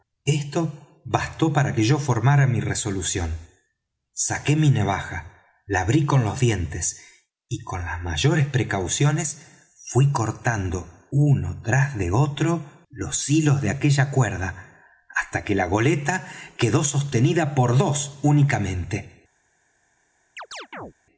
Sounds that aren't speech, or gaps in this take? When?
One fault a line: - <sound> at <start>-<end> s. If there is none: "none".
- chirp at 20.4-20.9 s